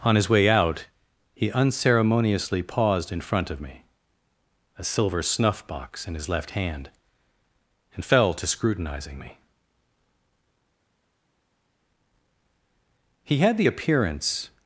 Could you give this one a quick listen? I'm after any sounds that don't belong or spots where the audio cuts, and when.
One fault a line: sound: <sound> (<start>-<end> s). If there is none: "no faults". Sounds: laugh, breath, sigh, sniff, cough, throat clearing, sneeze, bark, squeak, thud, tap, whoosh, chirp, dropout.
no faults